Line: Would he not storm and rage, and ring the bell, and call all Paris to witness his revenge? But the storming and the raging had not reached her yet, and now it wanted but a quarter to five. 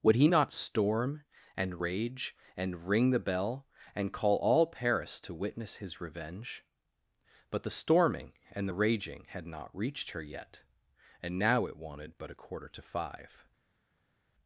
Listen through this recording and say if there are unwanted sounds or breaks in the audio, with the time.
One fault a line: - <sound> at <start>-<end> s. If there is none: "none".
none